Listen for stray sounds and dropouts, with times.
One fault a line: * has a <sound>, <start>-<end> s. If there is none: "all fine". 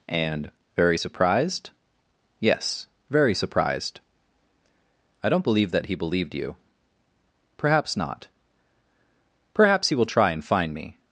all fine